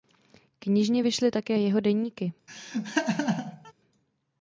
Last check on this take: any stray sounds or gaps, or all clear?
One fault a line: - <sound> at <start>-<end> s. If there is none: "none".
- laugh at 2.5-3.7 s